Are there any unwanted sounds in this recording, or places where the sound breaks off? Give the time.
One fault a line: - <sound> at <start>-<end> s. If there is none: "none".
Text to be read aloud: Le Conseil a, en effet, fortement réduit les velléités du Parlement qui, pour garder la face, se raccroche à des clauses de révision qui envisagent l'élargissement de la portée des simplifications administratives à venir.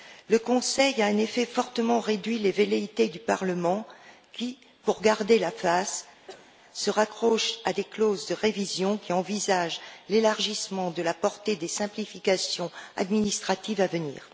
- cough at 6.3-6.6 s